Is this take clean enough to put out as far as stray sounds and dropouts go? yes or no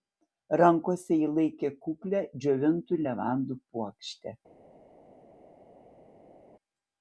yes